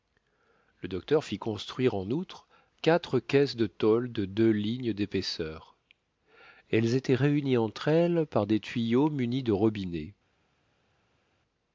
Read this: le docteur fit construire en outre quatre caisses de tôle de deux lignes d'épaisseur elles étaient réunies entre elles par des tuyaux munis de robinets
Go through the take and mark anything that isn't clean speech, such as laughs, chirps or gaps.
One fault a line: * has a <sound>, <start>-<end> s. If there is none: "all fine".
all fine